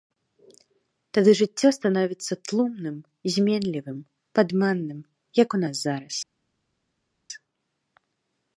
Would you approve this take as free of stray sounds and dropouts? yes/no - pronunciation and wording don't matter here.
yes